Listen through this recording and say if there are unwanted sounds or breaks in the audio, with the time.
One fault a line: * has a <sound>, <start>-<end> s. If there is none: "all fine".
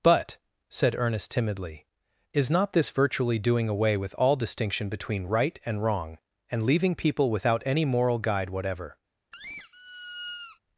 * has a squeak, 9.3-10.6 s